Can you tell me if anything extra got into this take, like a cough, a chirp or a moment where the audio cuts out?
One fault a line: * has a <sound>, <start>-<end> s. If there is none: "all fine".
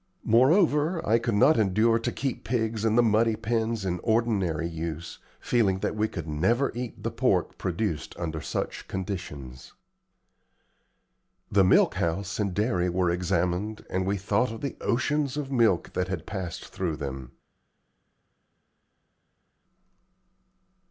all fine